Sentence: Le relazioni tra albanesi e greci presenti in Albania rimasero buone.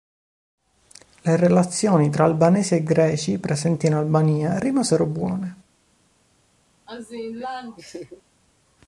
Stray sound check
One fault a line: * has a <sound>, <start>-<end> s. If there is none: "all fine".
* has a laugh, 6.9-8.2 s